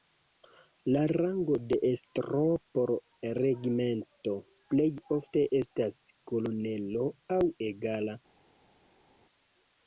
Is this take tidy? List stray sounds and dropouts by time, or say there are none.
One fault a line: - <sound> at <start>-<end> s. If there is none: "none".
none